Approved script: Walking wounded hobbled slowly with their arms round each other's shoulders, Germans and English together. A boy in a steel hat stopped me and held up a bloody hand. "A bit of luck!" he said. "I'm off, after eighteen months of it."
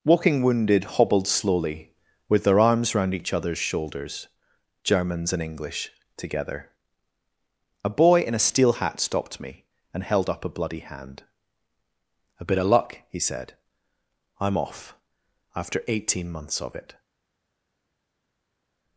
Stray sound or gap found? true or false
false